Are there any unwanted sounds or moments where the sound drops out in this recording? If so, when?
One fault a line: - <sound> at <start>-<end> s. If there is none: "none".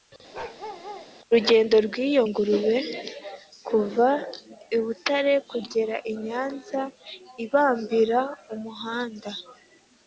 - bark at 0.3-1.1 s